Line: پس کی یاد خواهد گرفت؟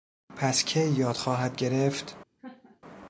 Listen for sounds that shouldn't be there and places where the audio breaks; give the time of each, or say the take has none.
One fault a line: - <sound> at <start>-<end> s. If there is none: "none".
- laugh at 2.4-2.8 s